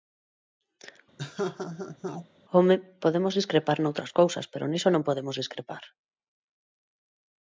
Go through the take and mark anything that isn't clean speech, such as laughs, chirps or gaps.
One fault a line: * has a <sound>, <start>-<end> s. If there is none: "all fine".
* has a laugh, 1.2-2.3 s